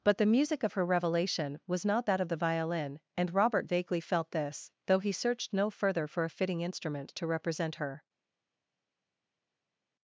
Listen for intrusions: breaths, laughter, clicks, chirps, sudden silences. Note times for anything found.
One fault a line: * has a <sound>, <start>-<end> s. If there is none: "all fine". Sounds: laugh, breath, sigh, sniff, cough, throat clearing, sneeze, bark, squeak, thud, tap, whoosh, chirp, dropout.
all fine